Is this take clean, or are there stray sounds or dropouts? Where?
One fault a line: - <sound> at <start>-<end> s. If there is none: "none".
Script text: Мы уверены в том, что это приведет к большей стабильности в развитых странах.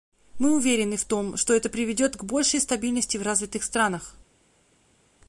none